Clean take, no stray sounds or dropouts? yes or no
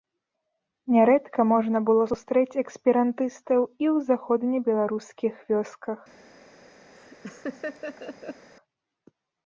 no